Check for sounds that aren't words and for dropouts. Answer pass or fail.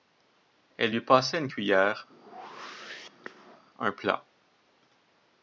fail